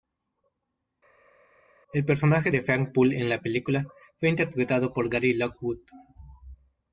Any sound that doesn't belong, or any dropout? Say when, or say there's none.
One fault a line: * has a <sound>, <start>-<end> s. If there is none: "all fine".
all fine